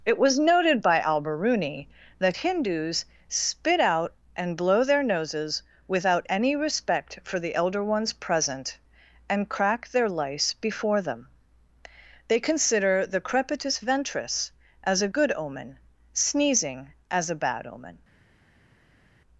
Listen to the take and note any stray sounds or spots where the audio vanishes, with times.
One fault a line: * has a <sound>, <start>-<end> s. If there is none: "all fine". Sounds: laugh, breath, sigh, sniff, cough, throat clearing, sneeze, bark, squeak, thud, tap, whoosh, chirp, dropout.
all fine